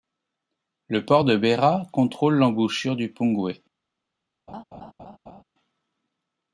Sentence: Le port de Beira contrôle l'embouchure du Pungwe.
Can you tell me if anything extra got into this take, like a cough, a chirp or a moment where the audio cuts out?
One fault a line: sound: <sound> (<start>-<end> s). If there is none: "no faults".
sound: laugh (4.5-5.4 s)